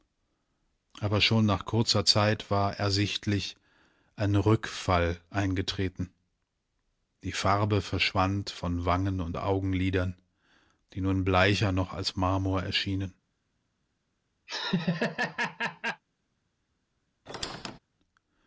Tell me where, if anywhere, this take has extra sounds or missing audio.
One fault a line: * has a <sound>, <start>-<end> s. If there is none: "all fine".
* has a laugh, 14.5-16.0 s
* has a squeak, 17.3-17.8 s